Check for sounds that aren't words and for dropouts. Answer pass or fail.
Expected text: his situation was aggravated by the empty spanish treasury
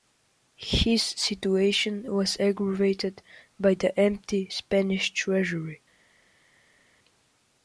pass